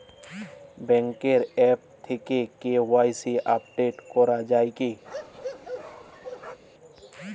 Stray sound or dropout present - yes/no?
yes